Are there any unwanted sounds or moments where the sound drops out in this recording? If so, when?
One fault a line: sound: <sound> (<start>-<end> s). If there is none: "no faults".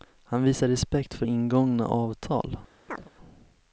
sound: chirp (2.9-3.1 s)